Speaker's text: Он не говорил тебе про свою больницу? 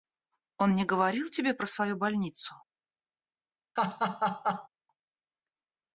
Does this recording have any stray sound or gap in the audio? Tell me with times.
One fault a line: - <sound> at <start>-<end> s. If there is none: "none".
- laugh at 3.8-4.7 s